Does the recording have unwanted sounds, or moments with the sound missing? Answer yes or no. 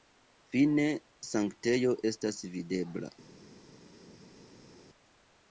no